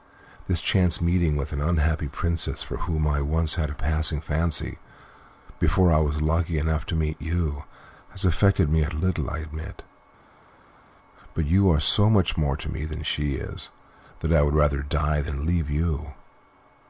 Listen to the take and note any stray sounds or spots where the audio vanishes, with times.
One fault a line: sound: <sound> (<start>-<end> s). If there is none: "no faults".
no faults